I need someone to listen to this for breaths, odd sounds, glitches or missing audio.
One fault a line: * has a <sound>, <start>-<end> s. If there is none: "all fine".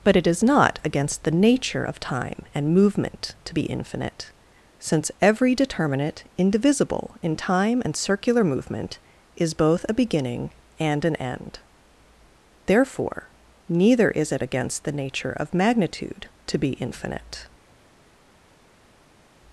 all fine